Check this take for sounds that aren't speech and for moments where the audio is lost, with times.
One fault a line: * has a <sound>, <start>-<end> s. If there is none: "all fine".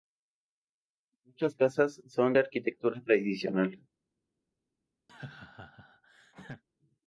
* has a laugh, 5.1-6.6 s